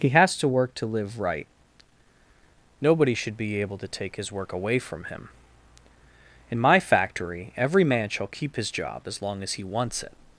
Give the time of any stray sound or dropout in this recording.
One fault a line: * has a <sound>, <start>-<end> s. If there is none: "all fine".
all fine